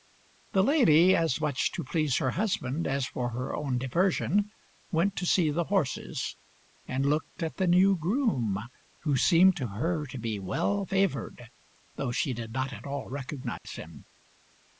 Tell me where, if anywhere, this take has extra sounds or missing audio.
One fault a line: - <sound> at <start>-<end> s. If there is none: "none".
- dropout at 13.6-13.7 s